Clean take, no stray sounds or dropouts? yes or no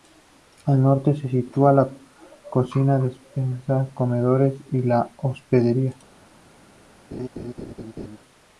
no